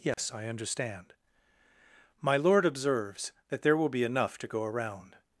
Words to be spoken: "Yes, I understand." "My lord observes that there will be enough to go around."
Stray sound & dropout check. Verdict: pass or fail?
fail